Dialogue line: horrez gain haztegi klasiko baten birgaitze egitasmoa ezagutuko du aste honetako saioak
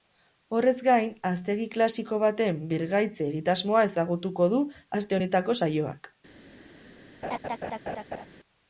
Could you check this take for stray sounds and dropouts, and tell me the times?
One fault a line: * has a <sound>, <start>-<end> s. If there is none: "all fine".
* has a laugh, 7.2-8.3 s